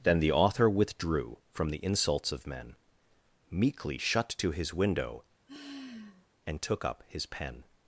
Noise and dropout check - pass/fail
fail